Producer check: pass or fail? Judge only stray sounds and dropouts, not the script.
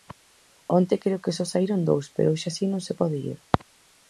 pass